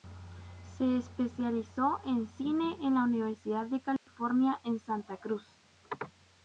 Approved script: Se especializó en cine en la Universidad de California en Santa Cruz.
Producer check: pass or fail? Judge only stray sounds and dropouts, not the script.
fail